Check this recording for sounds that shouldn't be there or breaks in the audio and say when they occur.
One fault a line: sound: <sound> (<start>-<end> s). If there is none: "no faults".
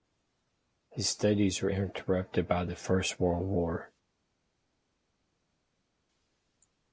no faults